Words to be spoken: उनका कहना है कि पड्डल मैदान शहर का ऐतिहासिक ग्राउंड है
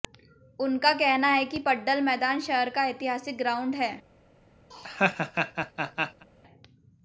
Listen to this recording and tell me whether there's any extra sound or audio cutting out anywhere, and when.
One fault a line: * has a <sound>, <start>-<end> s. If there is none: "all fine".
* has a laugh, 4.7-6.3 s